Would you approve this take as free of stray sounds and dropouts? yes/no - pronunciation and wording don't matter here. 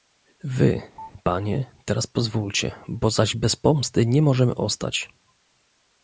no